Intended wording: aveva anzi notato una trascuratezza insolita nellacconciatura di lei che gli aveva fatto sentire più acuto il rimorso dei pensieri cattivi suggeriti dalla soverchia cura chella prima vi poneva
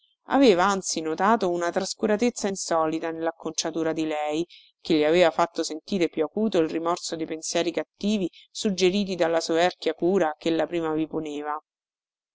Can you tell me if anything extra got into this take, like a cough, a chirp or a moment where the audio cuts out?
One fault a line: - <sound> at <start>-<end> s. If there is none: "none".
none